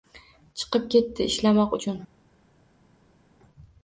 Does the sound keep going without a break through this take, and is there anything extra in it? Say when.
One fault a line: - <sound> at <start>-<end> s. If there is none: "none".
none